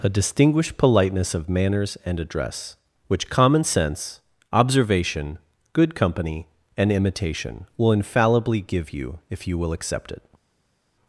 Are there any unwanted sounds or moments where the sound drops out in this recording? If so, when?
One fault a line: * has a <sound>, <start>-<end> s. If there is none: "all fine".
all fine